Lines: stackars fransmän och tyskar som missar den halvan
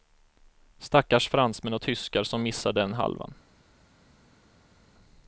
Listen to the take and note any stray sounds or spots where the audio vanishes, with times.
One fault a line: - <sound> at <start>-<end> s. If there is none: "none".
none